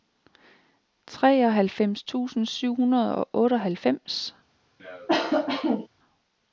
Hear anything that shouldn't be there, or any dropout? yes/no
yes